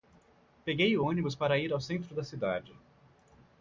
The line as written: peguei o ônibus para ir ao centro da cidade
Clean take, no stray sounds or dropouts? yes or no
yes